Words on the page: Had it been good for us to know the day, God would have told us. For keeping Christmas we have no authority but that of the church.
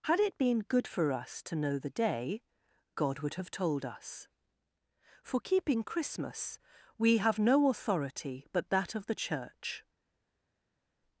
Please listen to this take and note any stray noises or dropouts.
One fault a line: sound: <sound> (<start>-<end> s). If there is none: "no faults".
no faults